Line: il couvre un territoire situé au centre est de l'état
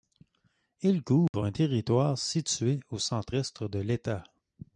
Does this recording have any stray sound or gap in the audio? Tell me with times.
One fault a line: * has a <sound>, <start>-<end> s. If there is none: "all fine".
* has a dropout, 1.3-1.3 s